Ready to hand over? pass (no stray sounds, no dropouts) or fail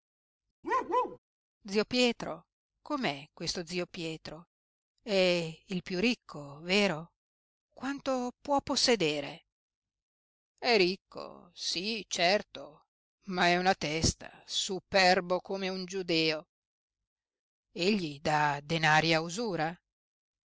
fail